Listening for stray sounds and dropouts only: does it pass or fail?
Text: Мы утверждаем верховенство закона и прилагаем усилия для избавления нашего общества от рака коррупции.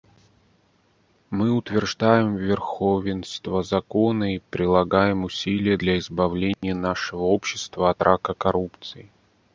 fail